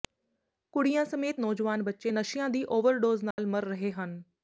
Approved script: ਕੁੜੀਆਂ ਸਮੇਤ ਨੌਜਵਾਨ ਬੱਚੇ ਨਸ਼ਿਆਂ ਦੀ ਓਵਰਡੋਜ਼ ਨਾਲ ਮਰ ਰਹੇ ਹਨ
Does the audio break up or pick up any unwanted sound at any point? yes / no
yes